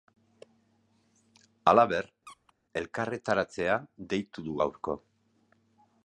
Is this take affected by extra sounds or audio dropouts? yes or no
yes